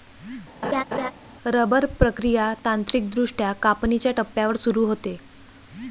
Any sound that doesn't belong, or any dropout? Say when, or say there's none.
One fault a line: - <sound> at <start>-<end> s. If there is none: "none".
- laugh at 0.6-1.1 s